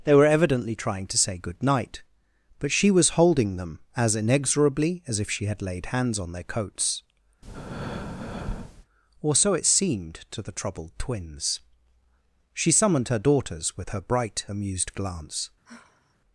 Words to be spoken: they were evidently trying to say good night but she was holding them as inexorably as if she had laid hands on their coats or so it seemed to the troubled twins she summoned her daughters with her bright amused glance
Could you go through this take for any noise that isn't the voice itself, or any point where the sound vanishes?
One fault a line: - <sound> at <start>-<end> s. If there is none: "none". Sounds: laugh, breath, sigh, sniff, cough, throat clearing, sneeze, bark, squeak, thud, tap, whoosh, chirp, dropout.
- breath at 7.4-8.9 s
- sigh at 15.6-16.1 s